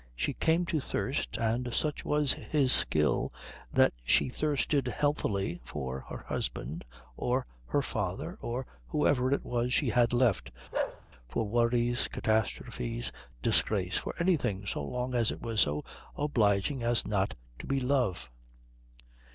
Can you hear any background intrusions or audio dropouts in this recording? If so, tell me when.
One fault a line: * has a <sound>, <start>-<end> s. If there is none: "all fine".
* has a bark, 10.7-11.0 s